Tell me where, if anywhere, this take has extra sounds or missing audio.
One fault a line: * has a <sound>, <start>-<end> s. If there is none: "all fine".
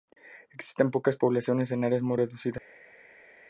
all fine